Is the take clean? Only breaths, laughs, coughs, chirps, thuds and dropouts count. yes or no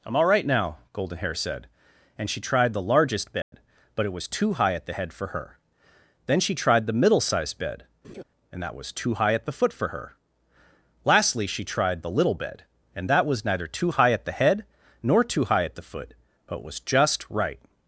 no